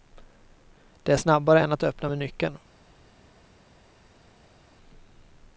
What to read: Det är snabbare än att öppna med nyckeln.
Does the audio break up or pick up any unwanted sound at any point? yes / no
no